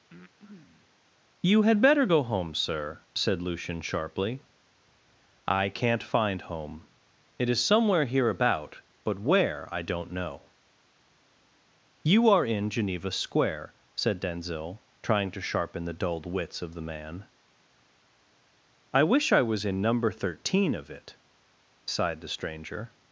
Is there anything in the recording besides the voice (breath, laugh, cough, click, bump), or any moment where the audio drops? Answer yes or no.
yes